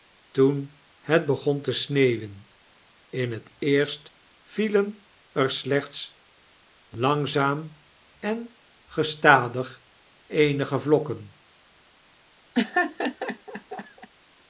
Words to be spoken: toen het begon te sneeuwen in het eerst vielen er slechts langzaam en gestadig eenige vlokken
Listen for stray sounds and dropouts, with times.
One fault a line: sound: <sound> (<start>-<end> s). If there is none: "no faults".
sound: laugh (12.5-14.1 s)